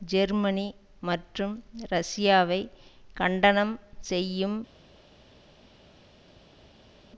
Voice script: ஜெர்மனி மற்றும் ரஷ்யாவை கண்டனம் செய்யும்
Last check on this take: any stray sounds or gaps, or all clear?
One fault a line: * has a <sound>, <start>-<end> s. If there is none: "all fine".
all fine